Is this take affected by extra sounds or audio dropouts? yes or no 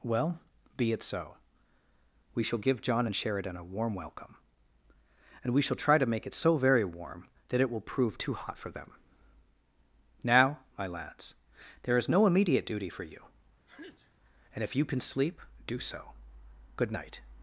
yes